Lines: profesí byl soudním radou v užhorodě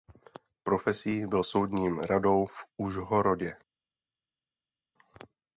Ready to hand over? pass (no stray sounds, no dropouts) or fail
pass